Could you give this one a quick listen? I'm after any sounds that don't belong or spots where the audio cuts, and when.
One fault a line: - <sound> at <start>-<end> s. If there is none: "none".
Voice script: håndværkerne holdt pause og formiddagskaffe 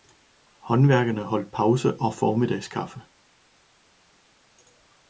none